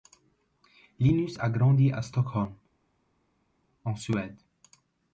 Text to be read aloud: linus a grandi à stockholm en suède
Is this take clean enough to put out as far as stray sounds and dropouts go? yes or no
yes